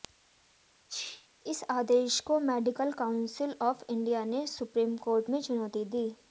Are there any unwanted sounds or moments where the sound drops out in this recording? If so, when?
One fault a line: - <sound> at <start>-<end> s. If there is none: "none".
- sneeze at 0.9-1.3 s